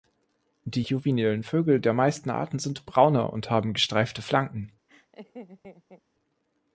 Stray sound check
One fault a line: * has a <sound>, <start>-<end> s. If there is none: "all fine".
* has a laugh, 4.9-6.0 s